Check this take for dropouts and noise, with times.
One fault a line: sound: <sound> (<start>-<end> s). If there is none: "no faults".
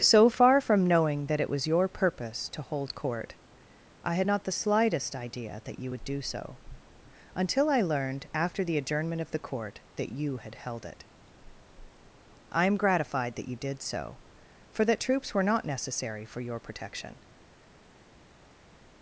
no faults